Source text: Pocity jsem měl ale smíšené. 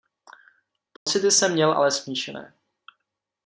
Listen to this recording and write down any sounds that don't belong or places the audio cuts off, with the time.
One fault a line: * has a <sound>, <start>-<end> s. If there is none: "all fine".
* has a dropout, 1.0-1.1 s